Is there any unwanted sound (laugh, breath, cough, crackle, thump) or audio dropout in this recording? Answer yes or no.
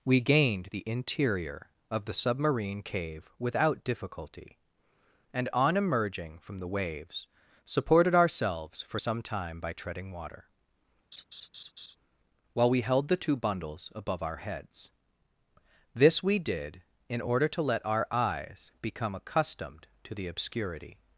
yes